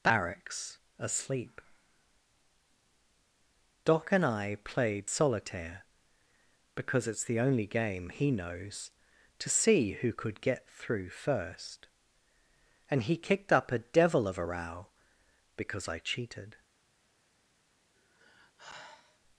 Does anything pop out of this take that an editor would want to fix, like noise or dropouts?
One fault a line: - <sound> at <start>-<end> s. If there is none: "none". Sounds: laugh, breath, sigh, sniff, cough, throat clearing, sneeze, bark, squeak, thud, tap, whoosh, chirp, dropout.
- sigh at 17.9-19.2 s